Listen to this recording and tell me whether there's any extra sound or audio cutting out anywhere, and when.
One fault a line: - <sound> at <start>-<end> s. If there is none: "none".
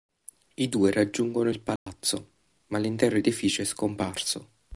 - dropout at 1.8-1.9 s